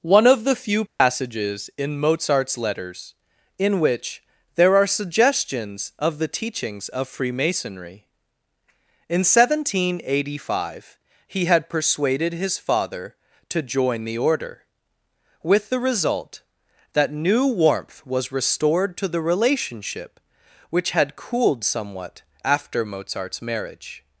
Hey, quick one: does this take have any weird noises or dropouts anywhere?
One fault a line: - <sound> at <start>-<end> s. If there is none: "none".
- dropout at 0.9-1.0 s